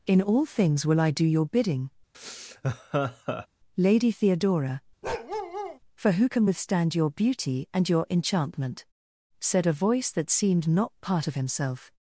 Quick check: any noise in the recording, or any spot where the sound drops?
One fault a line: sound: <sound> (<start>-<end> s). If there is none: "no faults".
sound: laugh (2.1-3.5 s)
sound: bark (5.0-5.8 s)